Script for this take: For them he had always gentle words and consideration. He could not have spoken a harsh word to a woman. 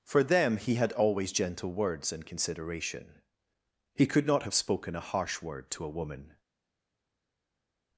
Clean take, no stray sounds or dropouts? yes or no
yes